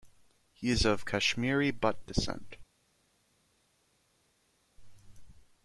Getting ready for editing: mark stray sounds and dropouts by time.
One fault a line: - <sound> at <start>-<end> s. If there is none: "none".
none